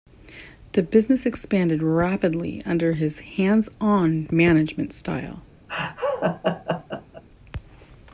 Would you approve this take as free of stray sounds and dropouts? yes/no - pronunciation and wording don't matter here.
no